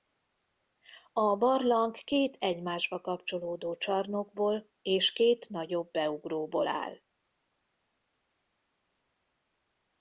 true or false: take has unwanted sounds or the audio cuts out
false